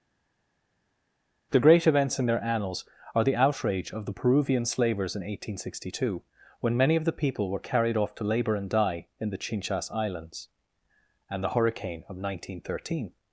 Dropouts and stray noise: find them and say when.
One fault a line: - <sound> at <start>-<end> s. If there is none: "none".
none